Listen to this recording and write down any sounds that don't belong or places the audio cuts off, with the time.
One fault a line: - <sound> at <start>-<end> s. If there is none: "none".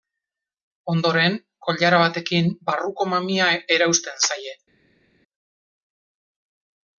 none